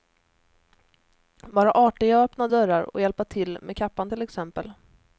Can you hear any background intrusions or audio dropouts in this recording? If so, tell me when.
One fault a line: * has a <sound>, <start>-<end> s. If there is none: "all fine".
all fine